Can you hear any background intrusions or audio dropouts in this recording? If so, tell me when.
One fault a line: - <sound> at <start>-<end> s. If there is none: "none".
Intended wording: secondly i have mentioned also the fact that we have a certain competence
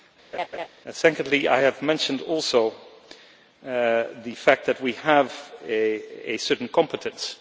- laugh at 0.3-0.7 s